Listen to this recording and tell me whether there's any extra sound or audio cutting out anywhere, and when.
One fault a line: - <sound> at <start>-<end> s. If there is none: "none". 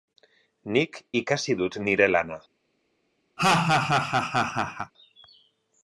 - laugh at 3.4-4.9 s